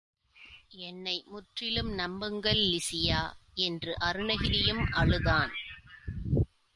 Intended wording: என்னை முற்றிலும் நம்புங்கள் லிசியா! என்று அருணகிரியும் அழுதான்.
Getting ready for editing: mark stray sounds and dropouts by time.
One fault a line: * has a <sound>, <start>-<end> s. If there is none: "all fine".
all fine